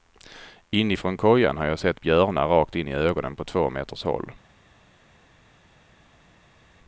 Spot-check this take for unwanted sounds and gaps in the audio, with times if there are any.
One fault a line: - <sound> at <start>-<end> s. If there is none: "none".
none